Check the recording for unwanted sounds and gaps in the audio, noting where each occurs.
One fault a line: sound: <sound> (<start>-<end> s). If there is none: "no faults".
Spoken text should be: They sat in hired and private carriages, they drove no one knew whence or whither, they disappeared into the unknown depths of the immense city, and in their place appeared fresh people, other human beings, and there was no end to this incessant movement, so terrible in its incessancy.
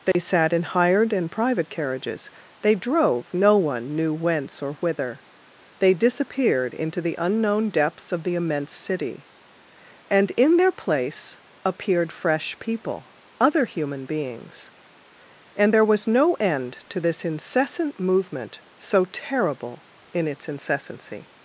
sound: dropout (0.1-0.1 s)